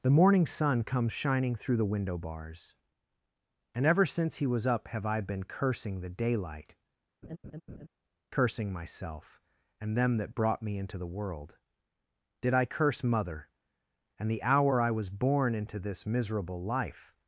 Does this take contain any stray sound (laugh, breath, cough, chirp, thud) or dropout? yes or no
yes